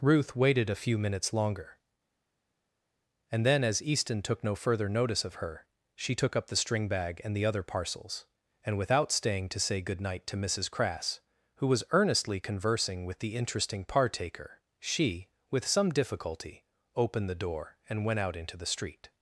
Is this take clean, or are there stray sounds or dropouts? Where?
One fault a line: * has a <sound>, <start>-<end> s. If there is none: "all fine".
all fine